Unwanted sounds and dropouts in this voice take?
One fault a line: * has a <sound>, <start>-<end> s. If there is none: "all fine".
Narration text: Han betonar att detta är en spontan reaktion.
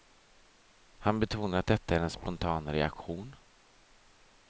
all fine